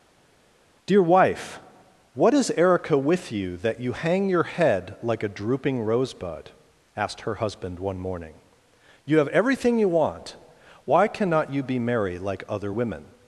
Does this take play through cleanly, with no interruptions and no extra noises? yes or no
yes